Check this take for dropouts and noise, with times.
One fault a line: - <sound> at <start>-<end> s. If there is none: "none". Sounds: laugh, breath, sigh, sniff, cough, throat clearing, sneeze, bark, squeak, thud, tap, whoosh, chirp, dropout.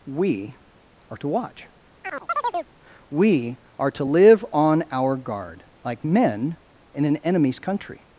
- chirp at 2.0-2.7 s